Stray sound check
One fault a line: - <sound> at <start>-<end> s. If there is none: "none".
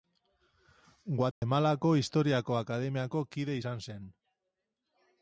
- dropout at 1.3-1.4 s